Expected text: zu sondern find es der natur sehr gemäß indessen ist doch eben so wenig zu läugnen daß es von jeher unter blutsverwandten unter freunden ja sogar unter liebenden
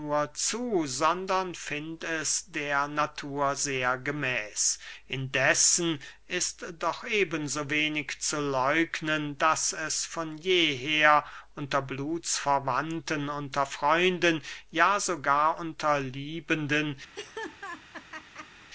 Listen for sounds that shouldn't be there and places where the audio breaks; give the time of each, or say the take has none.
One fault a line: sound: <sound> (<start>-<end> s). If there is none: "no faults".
sound: laugh (17.1-18.7 s)